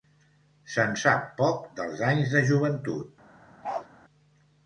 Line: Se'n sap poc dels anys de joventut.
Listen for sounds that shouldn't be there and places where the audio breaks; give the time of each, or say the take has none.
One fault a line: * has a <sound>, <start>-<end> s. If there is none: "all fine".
* has a bark, 3.6-3.9 s